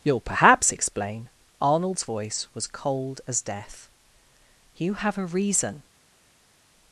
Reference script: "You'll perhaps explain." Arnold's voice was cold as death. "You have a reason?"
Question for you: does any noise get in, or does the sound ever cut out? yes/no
no